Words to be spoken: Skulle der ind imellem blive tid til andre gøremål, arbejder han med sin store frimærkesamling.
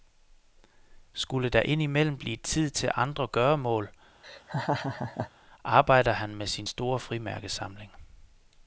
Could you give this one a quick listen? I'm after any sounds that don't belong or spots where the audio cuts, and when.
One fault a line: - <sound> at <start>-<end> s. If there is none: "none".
- laugh at 4.2-5.3 s